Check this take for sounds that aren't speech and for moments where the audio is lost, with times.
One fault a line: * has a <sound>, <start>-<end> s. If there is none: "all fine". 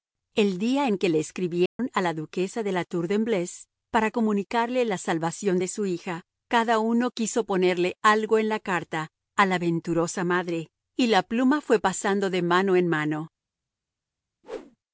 * has a dropout, 1.7-1.8 s
* has a whoosh, 14.4-14.8 s